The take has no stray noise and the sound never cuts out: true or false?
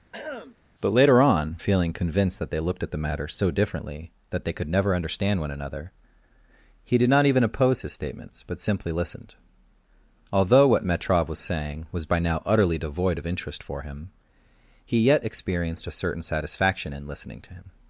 false